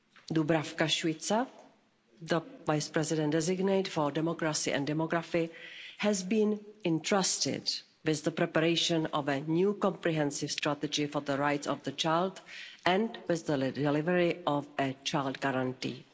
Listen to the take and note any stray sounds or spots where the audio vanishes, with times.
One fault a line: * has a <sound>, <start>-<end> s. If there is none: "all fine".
all fine